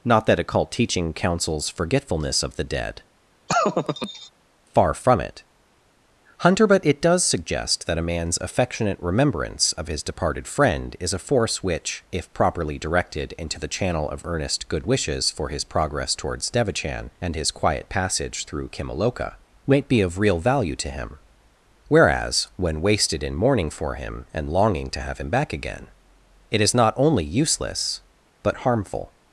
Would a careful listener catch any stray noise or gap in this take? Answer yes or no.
yes